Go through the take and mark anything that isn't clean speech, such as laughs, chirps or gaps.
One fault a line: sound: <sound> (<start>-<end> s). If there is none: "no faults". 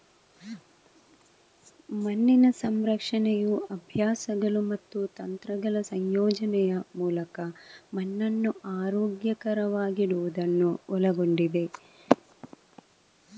no faults